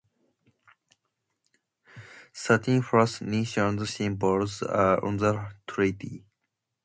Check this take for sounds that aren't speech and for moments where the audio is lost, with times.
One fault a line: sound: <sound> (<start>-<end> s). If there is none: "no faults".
no faults